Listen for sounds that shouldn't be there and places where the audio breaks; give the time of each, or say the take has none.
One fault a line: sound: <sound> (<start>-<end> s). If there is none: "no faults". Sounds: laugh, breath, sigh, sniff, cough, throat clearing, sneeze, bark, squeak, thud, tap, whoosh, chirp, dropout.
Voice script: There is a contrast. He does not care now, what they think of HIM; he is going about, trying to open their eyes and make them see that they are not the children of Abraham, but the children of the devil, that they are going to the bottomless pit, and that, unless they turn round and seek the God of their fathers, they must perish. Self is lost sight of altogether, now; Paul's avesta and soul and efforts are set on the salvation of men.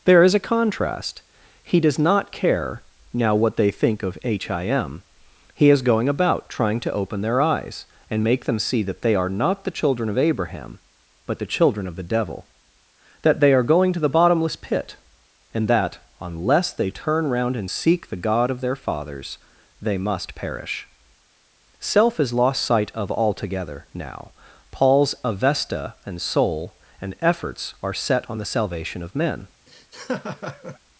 sound: laugh (29.7-30.8 s)